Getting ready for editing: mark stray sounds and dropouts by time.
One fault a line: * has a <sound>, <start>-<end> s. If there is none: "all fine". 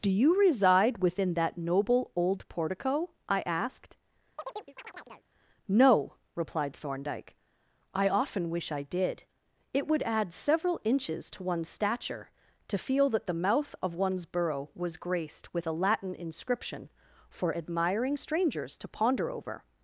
* has a chirp, 4.4-5.3 s